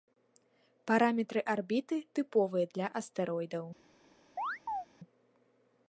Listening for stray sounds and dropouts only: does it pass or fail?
fail